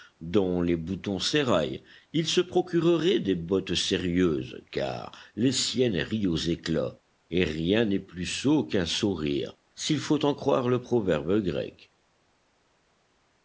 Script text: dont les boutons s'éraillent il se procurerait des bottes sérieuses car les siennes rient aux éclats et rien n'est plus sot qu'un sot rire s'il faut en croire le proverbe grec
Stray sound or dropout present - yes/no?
no